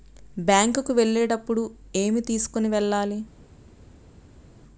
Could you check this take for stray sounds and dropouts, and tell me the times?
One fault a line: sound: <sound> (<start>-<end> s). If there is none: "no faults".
no faults